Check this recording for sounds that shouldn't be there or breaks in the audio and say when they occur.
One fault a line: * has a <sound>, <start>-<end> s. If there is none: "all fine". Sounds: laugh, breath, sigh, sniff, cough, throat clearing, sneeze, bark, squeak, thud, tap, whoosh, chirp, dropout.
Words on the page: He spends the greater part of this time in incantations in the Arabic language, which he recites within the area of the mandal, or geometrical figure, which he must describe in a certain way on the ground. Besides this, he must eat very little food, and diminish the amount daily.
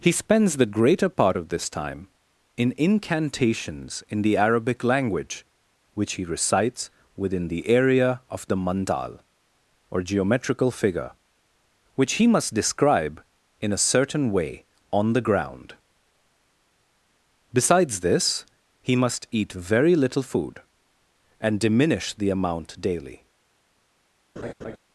* has a laugh, 24.4-24.8 s